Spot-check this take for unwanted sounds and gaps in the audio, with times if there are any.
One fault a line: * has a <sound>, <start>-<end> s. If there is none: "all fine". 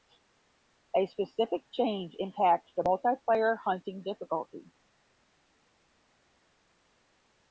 all fine